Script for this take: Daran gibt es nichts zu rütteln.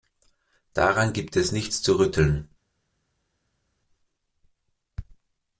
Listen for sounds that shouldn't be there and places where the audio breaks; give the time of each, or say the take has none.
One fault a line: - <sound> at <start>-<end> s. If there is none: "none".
none